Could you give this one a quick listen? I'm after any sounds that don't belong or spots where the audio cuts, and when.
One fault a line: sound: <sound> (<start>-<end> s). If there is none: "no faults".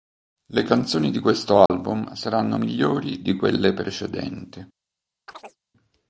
sound: dropout (1.7-1.7 s)
sound: chirp (5.3-5.6 s)